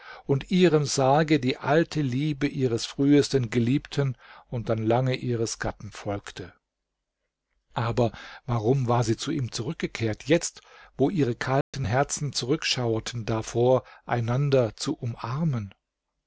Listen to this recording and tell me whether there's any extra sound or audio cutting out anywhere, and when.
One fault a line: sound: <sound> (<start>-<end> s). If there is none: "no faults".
sound: dropout (11.6-11.7 s)